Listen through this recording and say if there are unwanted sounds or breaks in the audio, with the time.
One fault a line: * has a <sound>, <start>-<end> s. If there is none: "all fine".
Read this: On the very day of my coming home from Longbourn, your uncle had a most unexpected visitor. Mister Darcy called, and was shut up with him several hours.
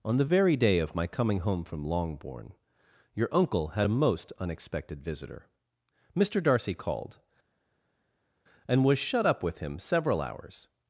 all fine